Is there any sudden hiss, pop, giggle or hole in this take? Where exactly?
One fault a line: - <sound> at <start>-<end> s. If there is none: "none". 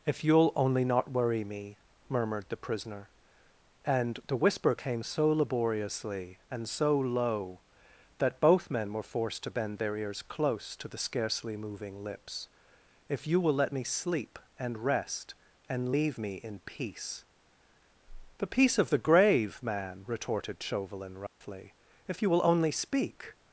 - dropout at 21.3-21.4 s